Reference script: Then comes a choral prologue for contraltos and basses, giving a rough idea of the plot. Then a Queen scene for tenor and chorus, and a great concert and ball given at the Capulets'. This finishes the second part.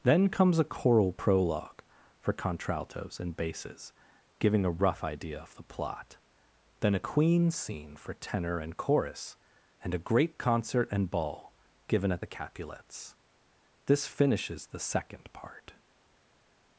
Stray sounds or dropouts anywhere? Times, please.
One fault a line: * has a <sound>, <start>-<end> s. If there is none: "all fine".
all fine